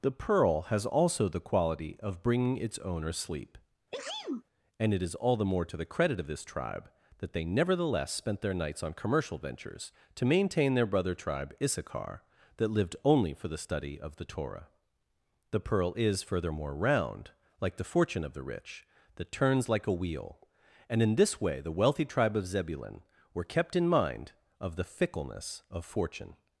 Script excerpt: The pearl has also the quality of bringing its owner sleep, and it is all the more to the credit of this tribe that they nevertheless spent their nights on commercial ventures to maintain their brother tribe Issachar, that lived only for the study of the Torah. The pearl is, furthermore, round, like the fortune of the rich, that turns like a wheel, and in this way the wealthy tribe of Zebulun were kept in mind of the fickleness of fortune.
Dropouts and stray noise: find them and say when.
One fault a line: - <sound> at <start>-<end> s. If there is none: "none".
- sneeze at 3.9-4.4 s